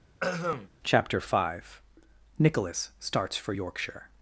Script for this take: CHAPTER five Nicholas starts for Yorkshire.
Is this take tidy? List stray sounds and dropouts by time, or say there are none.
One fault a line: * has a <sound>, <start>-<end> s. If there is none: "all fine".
* has a throat clearing, 0.2-0.7 s